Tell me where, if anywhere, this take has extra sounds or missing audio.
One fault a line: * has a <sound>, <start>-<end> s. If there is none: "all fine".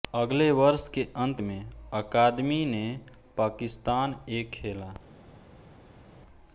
all fine